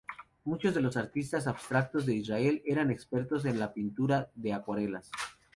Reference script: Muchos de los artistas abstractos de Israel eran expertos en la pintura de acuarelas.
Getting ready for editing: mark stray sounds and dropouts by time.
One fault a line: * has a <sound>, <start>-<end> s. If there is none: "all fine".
all fine